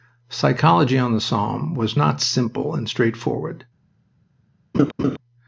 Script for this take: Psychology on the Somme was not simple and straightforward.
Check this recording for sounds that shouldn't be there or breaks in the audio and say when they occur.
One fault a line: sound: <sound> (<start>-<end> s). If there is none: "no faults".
sound: laugh (4.7-5.2 s)